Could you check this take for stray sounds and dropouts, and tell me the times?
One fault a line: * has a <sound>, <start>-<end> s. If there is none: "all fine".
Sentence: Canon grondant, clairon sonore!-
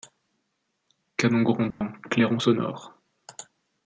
* has a dropout, 1.7-1.8 s